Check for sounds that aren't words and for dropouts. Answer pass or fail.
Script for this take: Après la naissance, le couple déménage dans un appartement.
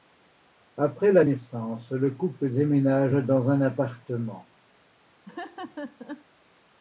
fail